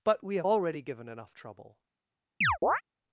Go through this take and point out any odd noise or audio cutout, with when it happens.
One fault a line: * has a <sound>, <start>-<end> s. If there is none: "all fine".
* has a chirp, 2.4-2.8 s